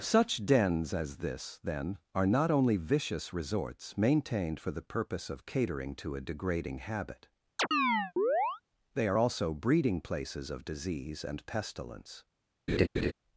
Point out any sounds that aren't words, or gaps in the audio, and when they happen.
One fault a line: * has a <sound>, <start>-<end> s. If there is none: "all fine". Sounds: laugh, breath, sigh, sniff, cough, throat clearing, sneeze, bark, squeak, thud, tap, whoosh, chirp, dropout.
* has a chirp, 7.6-8.6 s
* has a laugh, 12.7-13.1 s